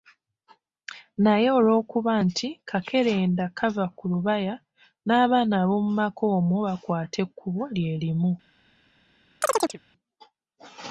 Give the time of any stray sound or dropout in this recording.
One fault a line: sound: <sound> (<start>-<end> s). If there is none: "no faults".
sound: chirp (9.4-9.8 s)